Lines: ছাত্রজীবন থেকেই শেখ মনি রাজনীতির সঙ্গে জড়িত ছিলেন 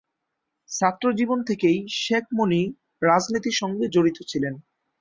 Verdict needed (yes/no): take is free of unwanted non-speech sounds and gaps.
yes